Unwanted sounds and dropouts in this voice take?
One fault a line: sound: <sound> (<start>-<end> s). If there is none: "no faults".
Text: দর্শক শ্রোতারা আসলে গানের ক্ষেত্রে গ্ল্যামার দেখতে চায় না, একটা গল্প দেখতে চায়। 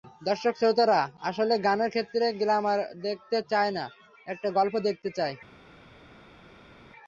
no faults